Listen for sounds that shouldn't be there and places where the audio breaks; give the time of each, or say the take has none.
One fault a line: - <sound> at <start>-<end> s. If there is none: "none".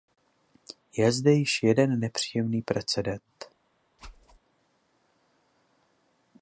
- whoosh at 4.0-4.4 s